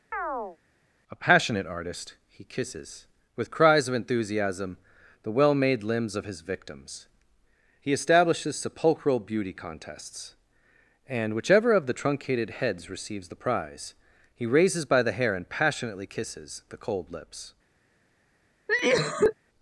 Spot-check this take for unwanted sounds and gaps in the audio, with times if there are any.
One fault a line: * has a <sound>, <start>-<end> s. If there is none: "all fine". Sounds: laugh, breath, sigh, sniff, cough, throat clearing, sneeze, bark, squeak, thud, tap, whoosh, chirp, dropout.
* has a chirp, 0.1-0.6 s
* has a cough, 18.7-19.3 s